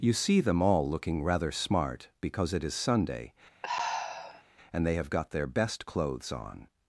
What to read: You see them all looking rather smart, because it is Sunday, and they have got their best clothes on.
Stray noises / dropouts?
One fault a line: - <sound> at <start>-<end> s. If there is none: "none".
- sigh at 3.6-4.4 s